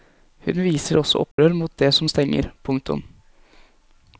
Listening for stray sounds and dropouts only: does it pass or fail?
fail